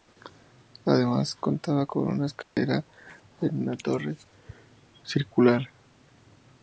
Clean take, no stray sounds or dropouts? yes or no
no